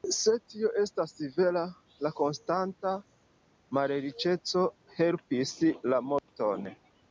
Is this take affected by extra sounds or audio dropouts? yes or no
yes